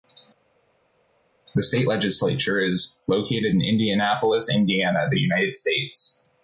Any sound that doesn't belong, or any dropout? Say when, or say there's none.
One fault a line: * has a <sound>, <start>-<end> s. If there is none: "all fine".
all fine